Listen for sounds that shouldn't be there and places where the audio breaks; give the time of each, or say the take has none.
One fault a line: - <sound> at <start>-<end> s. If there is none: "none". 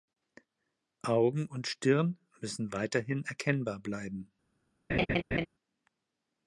- laugh at 4.9-5.5 s